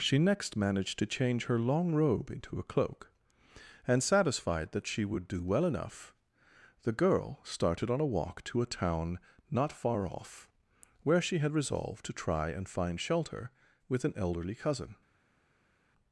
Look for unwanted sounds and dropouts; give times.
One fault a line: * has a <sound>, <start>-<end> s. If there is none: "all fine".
all fine